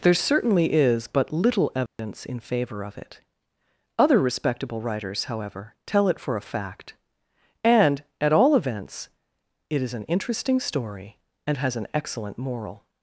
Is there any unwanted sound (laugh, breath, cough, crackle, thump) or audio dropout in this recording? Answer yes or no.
yes